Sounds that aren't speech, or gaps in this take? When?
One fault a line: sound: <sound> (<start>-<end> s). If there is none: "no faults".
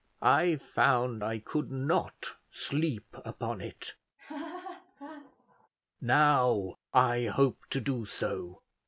sound: laugh (4.2-5.7 s)